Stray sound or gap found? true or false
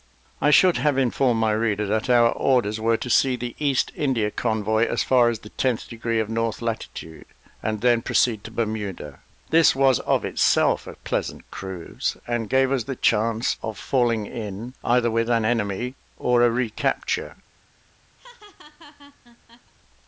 true